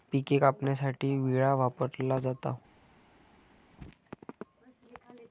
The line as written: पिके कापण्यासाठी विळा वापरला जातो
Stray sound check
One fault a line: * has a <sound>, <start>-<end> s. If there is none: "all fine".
all fine